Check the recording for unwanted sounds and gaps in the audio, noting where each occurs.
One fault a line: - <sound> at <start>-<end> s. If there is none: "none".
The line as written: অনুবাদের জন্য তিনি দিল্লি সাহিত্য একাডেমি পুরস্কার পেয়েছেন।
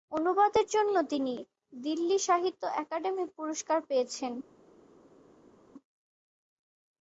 none